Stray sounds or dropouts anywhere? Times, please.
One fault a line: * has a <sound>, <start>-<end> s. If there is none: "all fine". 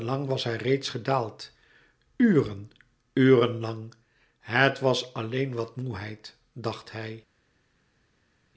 all fine